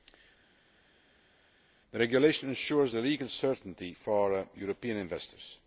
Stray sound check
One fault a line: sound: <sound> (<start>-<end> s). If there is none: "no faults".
no faults